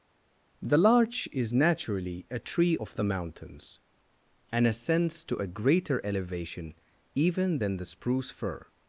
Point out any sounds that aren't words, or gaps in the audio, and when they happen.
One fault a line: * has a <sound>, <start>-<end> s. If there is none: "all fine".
all fine